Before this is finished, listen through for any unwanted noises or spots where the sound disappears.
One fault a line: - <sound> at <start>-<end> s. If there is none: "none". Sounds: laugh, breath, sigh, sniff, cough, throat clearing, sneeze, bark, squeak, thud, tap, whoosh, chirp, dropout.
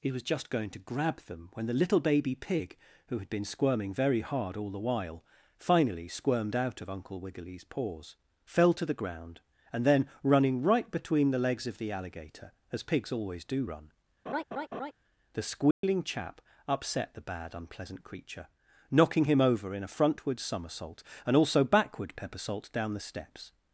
- laugh at 14.3-14.9 s
- dropout at 15.7-15.8 s